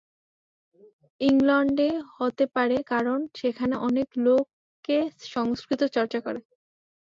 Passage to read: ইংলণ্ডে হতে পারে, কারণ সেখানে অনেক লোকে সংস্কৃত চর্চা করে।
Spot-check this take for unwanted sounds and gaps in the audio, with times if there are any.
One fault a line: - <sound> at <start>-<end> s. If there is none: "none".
none